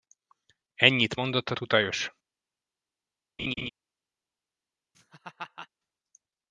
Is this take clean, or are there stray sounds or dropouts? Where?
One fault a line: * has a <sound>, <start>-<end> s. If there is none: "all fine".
* has a laugh, 3.4-3.7 s
* has a laugh, 4.9-5.7 s